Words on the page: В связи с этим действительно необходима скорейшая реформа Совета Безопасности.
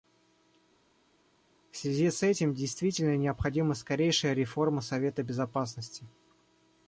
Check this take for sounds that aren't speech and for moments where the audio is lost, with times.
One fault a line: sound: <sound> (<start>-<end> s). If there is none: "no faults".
no faults